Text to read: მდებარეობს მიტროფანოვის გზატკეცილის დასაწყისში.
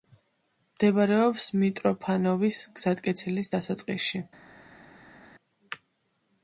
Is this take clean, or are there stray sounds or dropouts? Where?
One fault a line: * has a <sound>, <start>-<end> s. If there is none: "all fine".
all fine